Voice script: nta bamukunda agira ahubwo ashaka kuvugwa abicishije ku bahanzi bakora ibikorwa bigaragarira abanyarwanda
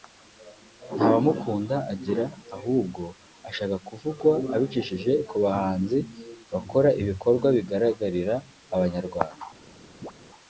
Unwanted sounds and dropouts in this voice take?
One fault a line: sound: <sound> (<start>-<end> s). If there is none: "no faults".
sound: chirp (10.0-10.1 s)